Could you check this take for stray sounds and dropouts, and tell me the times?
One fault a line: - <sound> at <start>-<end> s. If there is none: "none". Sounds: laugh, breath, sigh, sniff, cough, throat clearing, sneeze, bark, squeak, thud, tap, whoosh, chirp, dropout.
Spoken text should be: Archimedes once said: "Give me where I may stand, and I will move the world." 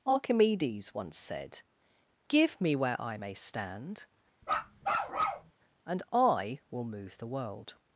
- bark at 4.4-5.5 s